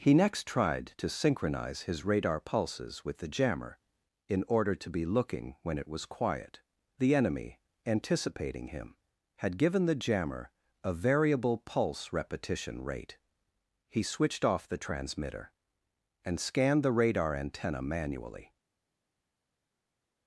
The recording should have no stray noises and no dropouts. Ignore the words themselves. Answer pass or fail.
pass